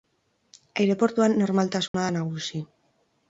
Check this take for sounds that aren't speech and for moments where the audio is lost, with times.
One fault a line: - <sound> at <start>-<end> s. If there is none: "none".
- dropout at 1.9-1.9 s